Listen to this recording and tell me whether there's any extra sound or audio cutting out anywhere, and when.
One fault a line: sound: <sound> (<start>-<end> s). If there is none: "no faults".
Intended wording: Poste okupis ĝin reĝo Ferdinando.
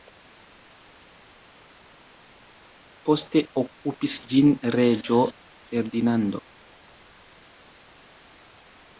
no faults